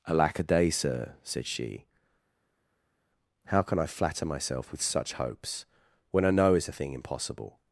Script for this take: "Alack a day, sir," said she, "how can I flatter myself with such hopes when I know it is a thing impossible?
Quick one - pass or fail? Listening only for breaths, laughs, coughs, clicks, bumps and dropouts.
pass